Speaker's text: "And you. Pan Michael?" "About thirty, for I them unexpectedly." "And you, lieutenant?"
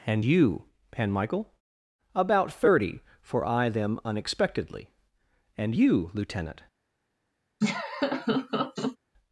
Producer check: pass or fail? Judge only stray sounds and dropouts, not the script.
fail